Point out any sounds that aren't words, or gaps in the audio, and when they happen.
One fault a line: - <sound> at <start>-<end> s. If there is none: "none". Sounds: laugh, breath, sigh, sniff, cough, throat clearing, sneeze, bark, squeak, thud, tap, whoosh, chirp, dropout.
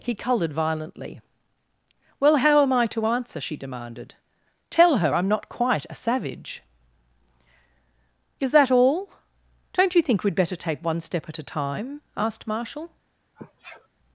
- sneeze at 13.4-13.9 s